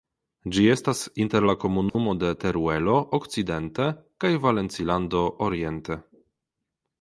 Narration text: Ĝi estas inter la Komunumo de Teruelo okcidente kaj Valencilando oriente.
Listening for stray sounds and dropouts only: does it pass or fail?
fail